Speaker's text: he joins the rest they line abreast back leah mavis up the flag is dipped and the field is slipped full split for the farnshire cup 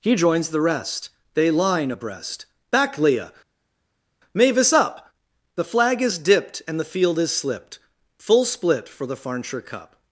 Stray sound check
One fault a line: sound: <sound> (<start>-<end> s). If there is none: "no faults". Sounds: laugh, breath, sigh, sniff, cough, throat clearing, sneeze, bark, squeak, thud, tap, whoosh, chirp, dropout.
no faults